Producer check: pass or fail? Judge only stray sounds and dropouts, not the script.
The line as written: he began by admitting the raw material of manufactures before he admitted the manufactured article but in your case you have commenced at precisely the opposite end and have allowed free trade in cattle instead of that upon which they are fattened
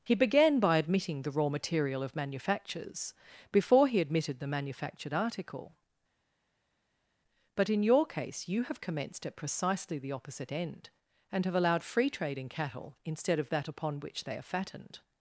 pass